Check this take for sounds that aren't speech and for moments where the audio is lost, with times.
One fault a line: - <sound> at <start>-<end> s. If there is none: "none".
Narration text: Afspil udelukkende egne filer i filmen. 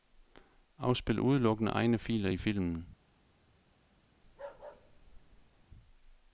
- bark at 4.2-5.6 s